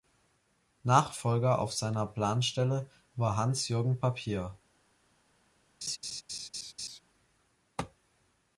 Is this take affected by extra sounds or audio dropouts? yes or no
yes